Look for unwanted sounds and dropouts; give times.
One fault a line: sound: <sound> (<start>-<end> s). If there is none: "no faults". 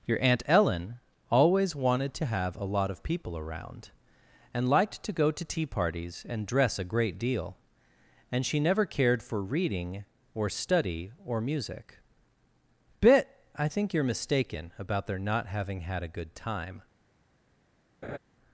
sound: laugh (18.0-18.2 s)